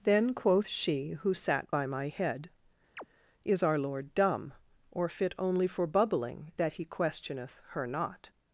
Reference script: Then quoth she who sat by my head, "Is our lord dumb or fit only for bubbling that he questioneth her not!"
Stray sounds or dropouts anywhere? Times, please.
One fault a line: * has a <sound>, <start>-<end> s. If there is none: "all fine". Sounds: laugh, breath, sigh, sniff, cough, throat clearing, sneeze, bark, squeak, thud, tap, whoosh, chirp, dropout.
* has a chirp, 3.0-3.1 s